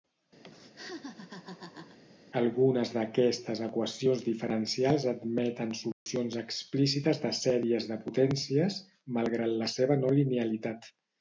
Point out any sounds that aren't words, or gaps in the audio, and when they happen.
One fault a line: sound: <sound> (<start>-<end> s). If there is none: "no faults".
sound: laugh (0.4-2.0 s)
sound: dropout (5.9-6.1 s)